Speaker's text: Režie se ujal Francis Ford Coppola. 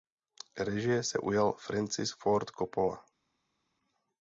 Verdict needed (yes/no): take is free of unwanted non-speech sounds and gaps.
yes